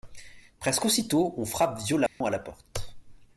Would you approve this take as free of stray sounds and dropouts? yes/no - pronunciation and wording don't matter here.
no